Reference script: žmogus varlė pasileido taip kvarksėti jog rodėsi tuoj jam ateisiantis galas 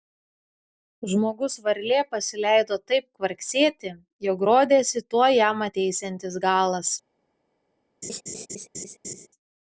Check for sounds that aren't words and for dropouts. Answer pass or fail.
fail